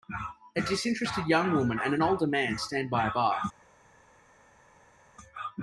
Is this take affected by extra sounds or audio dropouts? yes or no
no